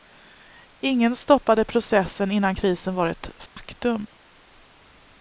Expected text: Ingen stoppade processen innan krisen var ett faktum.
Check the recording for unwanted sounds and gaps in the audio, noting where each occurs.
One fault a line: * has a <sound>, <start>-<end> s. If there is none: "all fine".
* has a dropout, 3.5-3.6 s